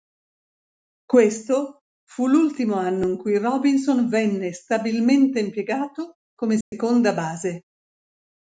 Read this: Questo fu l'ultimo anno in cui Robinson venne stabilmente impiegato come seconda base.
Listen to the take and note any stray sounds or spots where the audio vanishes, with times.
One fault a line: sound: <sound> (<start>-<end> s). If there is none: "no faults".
sound: dropout (6.6-6.7 s)